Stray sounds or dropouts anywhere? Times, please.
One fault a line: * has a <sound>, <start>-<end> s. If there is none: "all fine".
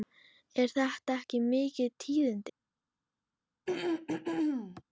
* has a throat clearing, 3.7-4.8 s